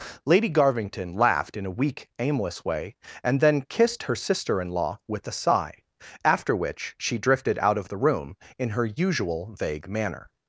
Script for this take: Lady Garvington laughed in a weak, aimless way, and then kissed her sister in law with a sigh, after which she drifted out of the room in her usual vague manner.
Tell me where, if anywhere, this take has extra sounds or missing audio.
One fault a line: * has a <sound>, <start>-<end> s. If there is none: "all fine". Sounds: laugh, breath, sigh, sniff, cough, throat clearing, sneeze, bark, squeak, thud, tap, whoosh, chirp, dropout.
all fine